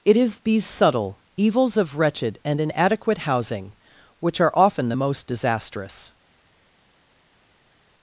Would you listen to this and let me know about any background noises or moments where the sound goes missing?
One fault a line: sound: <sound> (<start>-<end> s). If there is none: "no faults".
no faults